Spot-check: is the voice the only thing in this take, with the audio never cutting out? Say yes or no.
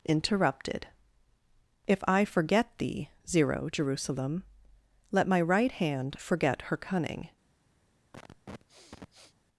no